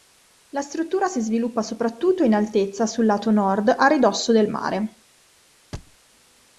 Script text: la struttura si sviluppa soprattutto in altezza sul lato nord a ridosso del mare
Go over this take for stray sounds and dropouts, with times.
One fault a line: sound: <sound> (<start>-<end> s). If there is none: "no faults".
sound: thud (5.7-6.0 s)